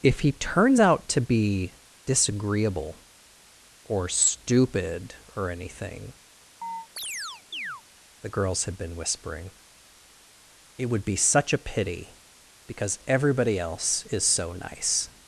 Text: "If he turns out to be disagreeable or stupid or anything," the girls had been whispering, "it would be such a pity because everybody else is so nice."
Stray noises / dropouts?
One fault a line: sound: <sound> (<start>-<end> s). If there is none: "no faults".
sound: chirp (6.6-7.8 s)